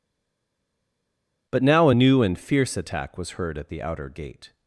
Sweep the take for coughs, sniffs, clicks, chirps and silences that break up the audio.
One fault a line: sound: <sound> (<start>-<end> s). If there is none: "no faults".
no faults